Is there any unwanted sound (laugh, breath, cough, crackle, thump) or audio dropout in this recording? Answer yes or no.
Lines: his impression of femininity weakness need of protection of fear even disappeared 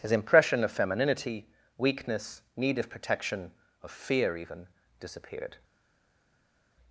no